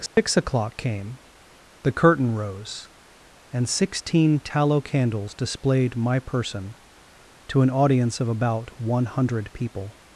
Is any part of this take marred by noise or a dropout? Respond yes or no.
yes